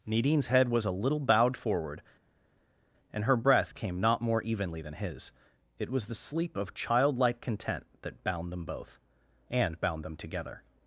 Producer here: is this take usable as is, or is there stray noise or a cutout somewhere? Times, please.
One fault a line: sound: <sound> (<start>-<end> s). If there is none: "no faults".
no faults